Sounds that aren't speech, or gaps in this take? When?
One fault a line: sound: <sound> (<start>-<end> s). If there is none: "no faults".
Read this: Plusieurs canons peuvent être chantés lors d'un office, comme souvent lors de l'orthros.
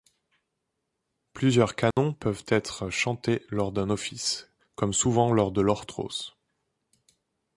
sound: dropout (1.9-2.0 s)